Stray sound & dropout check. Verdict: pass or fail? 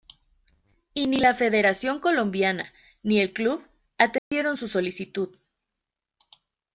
fail